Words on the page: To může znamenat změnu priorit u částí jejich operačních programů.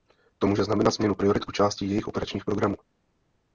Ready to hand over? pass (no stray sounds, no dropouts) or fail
pass